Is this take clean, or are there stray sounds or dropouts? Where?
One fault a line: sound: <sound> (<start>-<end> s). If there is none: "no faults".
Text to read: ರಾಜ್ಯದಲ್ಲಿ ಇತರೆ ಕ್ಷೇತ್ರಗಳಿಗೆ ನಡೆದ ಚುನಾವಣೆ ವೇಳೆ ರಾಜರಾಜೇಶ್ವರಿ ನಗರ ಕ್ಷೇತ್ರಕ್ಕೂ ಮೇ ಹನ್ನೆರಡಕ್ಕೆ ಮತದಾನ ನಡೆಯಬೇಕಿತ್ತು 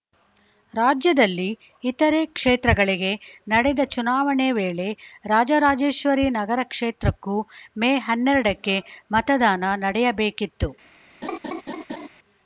sound: laugh (11.2-12.1 s)